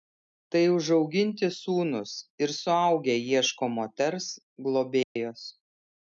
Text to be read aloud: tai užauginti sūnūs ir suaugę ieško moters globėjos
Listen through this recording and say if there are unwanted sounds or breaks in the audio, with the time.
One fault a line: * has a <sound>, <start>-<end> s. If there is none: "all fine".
* has a dropout, 5.0-5.2 s